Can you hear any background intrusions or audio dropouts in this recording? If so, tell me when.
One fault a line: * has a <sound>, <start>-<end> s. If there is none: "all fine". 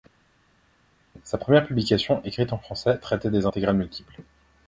all fine